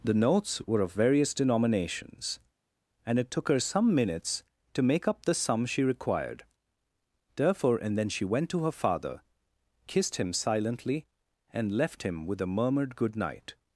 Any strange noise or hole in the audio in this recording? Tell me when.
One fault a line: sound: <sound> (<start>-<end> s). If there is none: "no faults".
no faults